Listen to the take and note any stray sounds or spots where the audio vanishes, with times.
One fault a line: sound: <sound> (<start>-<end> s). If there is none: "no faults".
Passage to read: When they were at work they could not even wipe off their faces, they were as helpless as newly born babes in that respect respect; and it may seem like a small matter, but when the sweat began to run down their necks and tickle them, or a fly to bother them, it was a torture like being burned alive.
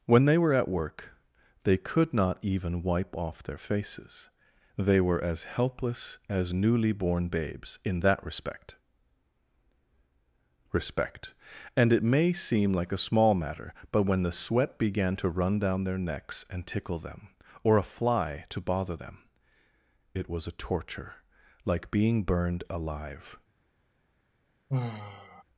sound: sigh (24.7-25.4 s)